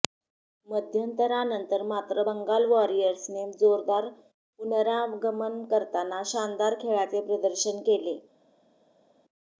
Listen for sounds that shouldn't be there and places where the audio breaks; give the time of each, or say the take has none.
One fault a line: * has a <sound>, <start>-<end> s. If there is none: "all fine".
all fine